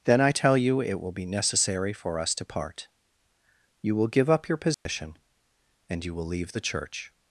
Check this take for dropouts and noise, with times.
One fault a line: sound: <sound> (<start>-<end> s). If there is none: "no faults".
sound: dropout (4.7-4.9 s)